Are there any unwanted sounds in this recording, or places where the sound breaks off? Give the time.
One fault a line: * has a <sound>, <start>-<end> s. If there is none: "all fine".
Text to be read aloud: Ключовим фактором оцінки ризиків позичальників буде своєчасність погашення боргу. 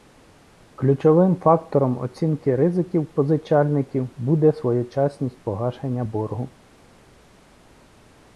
all fine